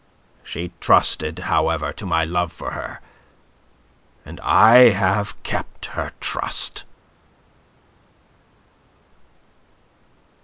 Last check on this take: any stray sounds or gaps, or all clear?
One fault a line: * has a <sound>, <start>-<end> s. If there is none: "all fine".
all fine